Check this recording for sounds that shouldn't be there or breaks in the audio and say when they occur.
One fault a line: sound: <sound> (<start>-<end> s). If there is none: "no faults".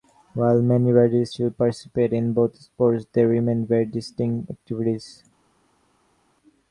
no faults